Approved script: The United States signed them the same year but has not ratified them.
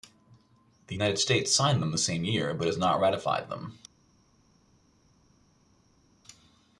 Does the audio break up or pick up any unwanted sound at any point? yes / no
no